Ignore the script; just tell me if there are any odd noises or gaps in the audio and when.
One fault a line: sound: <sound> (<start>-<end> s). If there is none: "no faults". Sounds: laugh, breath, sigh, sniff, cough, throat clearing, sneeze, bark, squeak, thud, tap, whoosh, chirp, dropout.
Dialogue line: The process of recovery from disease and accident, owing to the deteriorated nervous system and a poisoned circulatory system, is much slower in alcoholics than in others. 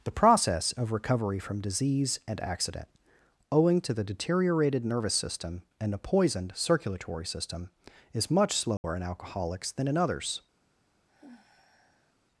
sound: dropout (8.8-8.8 s)
sound: sigh (11.1-12.2 s)